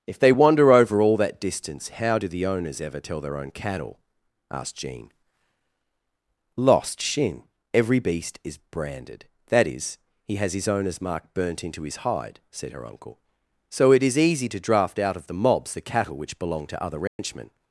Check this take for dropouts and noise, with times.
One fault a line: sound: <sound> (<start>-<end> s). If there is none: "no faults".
sound: dropout (17.1-17.2 s)